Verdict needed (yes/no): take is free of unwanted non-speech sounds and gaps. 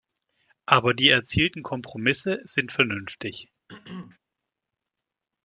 no